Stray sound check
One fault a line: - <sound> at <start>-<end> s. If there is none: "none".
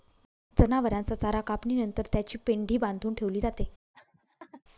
- laugh at 3.9-4.6 s